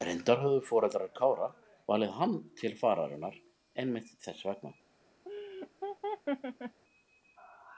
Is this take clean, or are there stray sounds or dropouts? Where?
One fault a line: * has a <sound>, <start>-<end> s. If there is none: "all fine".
* has a laugh, 5.3-6.8 s